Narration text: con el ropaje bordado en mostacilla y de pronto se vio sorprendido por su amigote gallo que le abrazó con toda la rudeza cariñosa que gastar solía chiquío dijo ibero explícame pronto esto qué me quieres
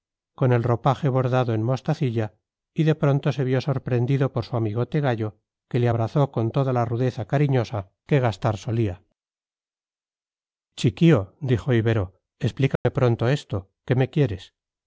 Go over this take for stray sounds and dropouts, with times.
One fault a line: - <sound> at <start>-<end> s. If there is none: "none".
- dropout at 12.8-12.8 s